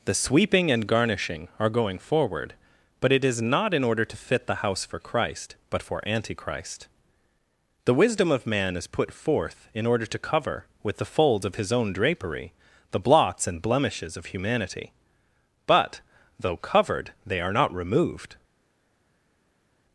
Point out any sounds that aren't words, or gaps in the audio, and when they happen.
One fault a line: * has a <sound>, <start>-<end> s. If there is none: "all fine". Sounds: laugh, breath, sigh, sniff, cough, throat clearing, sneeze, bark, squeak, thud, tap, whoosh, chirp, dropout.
all fine